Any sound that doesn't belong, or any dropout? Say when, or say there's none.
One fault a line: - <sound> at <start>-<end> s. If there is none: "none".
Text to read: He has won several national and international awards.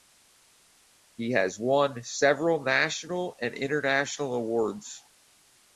none